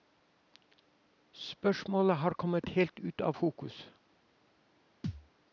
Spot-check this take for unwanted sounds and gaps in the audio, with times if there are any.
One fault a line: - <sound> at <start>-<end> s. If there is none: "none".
- thud at 5.0-5.3 s